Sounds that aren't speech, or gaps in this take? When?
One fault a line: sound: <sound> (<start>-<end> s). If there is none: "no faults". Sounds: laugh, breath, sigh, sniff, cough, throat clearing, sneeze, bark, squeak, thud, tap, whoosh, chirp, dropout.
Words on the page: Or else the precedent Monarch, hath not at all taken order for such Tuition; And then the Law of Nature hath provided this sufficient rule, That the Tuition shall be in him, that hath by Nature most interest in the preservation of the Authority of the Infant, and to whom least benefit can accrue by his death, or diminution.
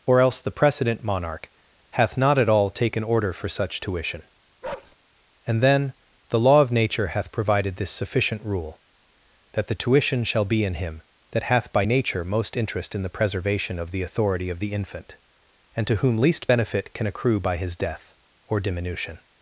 sound: bark (4.6-5.0 s)